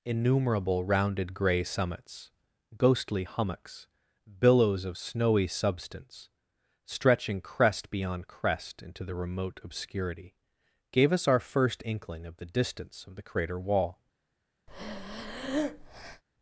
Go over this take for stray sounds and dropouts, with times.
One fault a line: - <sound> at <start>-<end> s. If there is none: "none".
- breath at 14.7-16.2 s